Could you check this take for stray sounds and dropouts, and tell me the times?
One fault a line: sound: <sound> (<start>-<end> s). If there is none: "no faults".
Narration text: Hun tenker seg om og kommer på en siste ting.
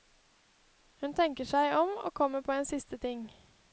no faults